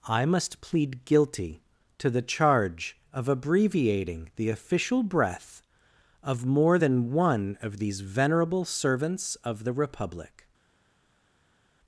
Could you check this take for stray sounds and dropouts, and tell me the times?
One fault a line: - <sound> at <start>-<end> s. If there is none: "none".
none